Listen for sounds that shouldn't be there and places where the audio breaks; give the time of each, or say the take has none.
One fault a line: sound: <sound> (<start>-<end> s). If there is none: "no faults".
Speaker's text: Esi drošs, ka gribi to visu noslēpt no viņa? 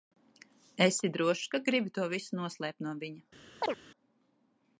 sound: chirp (3.6-3.8 s)